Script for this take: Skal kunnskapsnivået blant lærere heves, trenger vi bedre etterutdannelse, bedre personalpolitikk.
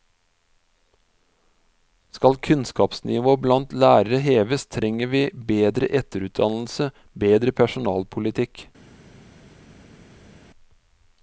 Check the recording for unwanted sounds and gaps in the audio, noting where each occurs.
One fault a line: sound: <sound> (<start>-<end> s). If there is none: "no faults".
no faults